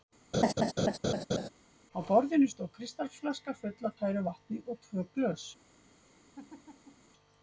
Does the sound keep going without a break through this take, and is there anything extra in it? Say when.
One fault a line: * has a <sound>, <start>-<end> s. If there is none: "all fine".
* has a laugh, 0.3-1.5 s
* has a laugh, 6.3-7.1 s